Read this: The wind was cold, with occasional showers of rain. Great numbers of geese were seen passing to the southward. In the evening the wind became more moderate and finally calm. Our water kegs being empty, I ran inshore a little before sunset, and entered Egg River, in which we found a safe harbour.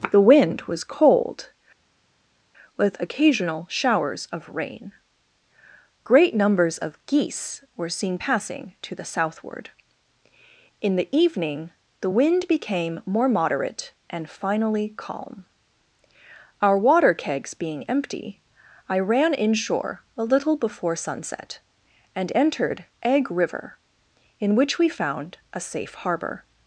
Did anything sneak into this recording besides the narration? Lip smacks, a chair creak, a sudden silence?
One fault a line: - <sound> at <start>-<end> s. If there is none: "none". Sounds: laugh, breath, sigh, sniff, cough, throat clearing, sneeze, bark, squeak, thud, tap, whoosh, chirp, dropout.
none